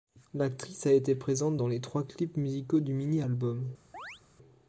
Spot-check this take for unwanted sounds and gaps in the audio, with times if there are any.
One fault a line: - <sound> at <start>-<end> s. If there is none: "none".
- chirp at 3.9-4.2 s